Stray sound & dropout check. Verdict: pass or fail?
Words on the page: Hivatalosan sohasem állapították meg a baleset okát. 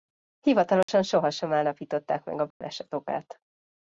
fail